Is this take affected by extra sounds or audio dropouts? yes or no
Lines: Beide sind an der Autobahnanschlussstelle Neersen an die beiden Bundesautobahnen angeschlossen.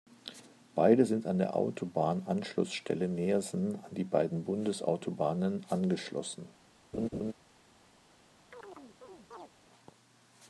yes